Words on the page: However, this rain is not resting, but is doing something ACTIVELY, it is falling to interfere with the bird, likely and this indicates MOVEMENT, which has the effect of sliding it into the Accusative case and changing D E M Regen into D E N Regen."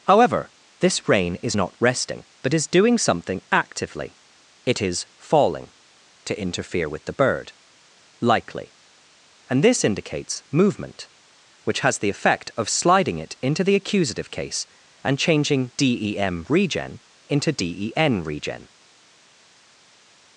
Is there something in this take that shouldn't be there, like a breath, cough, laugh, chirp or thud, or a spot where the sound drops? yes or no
no